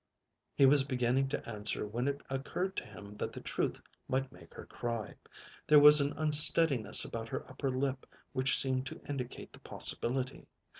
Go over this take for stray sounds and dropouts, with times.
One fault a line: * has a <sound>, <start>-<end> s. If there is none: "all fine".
all fine